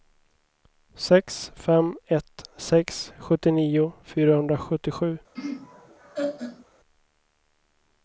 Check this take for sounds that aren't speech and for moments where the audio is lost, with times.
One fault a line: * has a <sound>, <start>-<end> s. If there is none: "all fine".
* has a laugh, 5.3-6.6 s